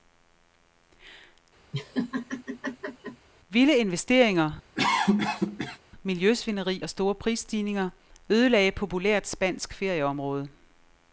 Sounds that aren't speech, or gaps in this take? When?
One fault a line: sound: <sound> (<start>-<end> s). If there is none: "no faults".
sound: laugh (1.7-3.3 s)
sound: cough (4.7-5.8 s)